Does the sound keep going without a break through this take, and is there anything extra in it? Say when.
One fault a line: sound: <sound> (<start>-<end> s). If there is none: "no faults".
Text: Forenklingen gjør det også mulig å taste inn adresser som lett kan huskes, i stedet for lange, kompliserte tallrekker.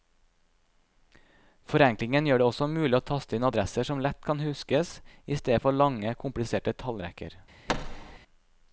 sound: thud (7.7-8.2 s)